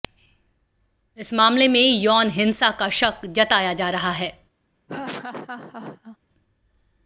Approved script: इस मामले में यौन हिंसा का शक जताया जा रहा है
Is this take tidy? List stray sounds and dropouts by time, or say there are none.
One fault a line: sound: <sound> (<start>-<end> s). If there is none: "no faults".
sound: laugh (4.9-6.2 s)